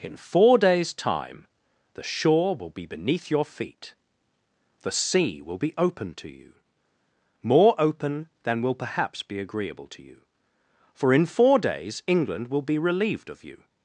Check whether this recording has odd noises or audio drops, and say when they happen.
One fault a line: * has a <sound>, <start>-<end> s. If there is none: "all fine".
all fine